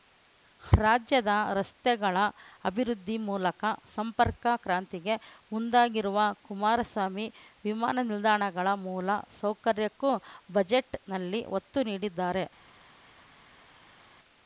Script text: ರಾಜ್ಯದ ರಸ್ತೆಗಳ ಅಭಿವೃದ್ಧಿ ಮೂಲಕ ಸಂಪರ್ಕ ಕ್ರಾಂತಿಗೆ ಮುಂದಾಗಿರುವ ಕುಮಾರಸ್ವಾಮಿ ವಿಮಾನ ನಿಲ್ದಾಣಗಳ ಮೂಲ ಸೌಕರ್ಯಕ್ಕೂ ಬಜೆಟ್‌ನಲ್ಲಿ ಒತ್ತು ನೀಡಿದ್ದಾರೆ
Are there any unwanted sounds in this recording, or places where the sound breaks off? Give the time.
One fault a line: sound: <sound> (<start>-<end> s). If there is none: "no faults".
no faults